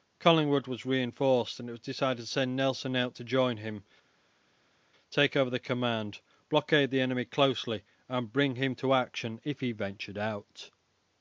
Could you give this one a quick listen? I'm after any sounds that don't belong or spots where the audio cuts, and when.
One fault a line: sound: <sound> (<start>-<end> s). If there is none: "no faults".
no faults